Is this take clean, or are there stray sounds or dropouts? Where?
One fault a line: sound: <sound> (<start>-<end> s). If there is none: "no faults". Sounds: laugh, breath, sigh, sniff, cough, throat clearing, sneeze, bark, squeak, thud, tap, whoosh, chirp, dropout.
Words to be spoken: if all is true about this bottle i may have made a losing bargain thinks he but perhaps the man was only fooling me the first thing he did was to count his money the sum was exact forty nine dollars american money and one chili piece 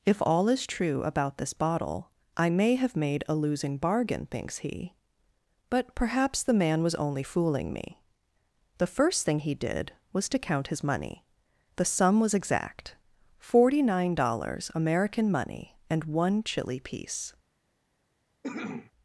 sound: cough (18.4-18.9 s)